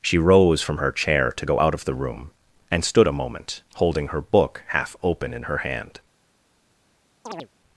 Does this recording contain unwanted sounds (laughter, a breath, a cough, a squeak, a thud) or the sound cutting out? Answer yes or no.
yes